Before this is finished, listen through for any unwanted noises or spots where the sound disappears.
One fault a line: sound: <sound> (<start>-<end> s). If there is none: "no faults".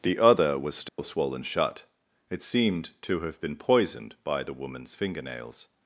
sound: dropout (0.9-1.0 s)